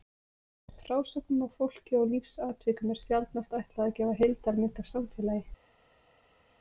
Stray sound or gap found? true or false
false